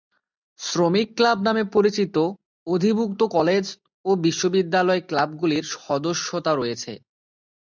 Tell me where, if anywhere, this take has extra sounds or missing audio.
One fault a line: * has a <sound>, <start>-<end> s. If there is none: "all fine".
all fine